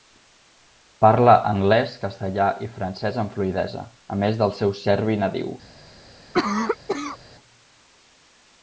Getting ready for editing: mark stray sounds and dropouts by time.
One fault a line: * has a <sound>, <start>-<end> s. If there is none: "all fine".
* has a cough, 6.3-7.2 s